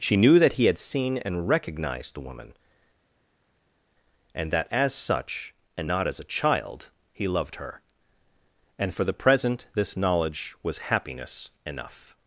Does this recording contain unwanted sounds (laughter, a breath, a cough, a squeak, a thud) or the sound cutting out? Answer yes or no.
no